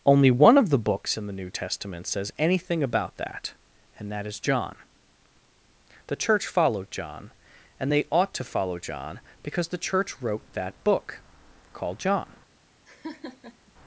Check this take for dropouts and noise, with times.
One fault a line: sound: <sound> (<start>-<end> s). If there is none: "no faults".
sound: laugh (12.9-13.7 s)